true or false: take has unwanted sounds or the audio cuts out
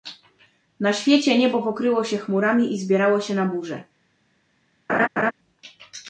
true